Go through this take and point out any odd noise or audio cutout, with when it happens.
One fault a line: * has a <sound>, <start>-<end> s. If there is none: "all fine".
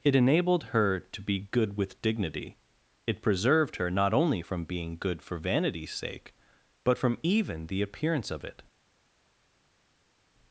all fine